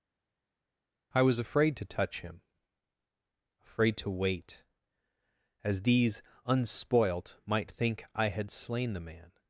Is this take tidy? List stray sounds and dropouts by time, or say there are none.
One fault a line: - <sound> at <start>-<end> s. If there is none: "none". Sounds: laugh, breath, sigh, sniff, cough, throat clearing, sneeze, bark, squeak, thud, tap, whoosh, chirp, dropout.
none